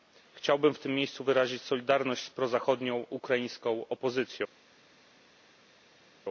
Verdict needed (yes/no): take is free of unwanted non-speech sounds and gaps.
yes